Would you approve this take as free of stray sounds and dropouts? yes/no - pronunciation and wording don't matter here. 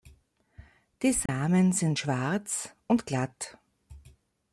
no